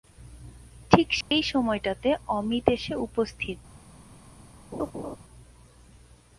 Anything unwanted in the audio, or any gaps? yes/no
yes